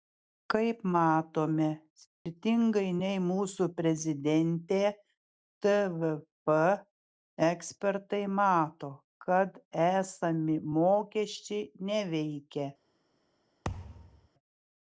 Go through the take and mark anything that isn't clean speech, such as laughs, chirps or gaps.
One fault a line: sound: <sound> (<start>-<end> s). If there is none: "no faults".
sound: dropout (2.1-2.3 s)
sound: thud (13.6-14.3 s)